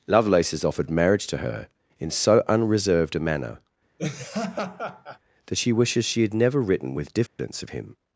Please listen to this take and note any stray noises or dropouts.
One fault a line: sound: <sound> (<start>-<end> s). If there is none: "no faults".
sound: laugh (4.0-5.2 s)
sound: dropout (7.3-7.4 s)